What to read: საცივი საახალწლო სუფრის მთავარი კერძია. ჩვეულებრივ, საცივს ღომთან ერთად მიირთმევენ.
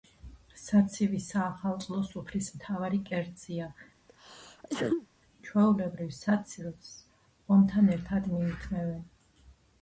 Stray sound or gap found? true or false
true